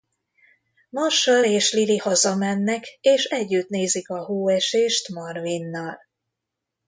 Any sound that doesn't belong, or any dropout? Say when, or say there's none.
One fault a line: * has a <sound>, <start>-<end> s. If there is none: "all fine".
all fine